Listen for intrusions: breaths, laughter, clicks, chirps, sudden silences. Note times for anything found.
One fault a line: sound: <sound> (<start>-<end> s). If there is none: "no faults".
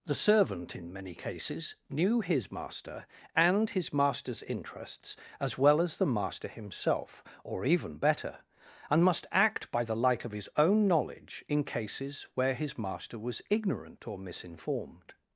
no faults